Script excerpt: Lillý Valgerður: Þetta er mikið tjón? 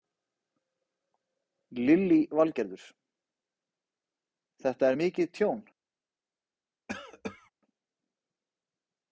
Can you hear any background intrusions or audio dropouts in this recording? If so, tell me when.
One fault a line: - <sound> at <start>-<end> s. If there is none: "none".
- cough at 6.9-7.5 s